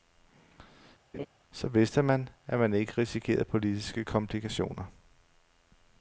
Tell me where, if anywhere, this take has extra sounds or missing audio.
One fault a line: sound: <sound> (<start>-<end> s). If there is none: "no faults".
sound: laugh (1.1-1.3 s)